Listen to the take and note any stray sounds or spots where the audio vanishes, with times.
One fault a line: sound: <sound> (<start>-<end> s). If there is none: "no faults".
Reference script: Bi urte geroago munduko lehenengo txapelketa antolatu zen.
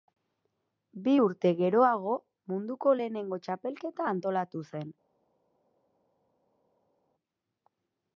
no faults